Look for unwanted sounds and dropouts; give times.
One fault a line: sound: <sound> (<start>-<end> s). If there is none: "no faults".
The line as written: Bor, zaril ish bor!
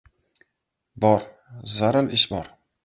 no faults